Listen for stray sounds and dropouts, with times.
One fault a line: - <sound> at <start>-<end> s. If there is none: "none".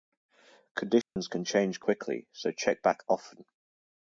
- dropout at 1.0-1.2 s